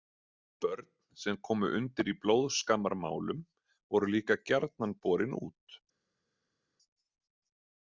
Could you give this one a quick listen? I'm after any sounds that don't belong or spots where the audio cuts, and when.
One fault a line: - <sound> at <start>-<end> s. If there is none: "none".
none